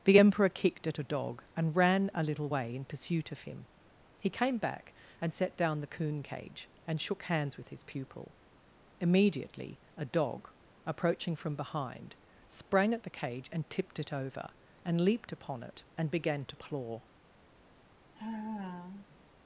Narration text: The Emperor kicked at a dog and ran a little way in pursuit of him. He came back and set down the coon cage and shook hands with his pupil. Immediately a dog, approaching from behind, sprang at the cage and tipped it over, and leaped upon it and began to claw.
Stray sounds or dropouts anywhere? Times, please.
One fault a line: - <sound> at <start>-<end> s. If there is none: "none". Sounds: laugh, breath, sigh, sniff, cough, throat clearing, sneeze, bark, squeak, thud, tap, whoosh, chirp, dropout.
- sigh at 18.1-19.3 s